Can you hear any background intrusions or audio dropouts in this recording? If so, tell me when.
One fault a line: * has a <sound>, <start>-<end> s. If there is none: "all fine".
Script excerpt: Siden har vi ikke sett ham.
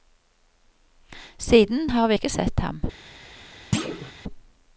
* has a thud, 3.7-4.1 s